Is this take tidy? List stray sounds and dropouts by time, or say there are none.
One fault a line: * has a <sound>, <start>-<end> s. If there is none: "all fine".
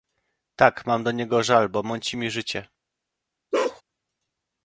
* has a bark, 3.5-3.8 s